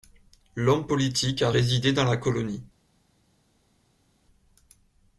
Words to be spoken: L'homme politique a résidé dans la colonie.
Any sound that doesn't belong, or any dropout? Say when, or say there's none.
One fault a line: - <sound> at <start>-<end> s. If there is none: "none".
none